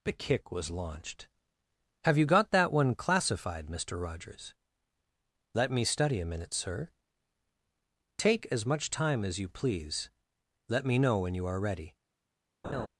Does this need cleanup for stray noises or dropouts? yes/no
yes